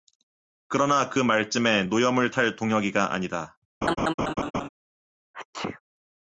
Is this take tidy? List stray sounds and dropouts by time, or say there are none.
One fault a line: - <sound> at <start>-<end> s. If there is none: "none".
- laugh at 3.8-4.7 s
- sneeze at 5.3-5.8 s